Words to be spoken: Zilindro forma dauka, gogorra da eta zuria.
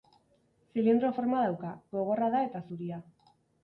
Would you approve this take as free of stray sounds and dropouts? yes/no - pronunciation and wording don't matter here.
yes